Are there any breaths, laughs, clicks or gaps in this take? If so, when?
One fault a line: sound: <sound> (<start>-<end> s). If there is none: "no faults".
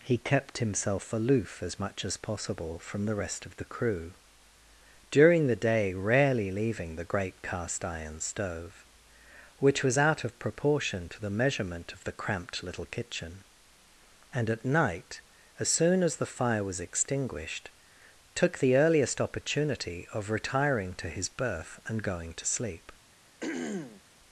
sound: throat clearing (23.4-24.0 s)